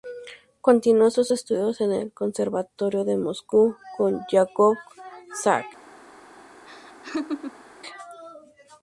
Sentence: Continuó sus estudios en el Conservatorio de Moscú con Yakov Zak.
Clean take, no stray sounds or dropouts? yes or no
no